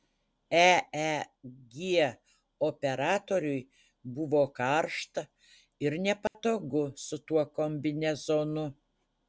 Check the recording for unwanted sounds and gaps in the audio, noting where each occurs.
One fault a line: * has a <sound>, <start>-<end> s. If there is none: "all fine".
* has a dropout, 6.3-6.3 s